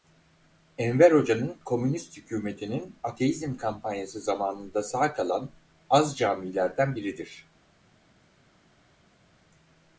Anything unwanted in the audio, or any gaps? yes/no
no